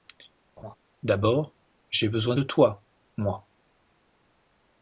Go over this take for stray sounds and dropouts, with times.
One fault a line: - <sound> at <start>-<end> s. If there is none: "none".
- laugh at 0.6-0.8 s